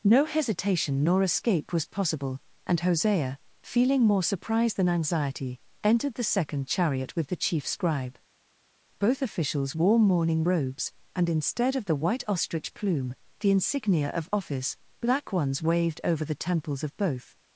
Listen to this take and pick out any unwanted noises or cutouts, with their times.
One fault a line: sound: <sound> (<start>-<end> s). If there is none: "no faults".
no faults